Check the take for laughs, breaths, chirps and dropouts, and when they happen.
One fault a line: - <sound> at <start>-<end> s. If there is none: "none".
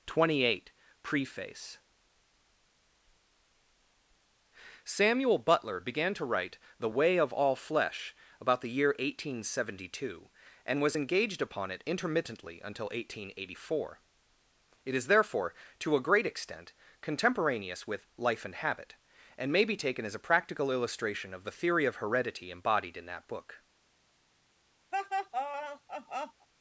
- laugh at 24.9-26.5 s